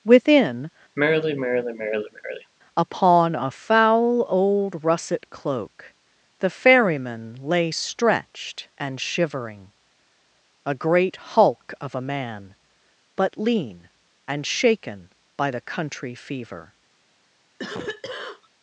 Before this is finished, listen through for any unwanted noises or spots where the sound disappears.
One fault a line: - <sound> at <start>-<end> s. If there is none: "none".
- sigh at 1.0-2.5 s
- cough at 17.6-18.5 s